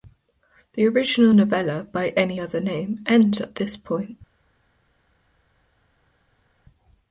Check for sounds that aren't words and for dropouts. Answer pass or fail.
pass